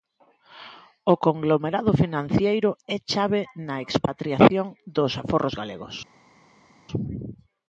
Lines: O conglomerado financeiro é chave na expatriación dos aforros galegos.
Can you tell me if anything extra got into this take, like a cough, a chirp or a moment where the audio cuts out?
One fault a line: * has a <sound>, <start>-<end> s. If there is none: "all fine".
all fine